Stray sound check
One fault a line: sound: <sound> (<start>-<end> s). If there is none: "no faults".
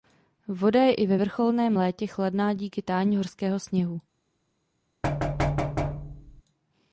sound: thud (5.0-6.4 s)